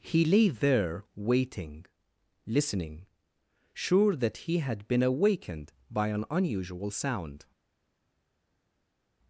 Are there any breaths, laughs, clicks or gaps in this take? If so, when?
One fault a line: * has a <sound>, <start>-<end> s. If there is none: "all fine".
all fine